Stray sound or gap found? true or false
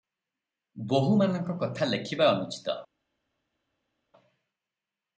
false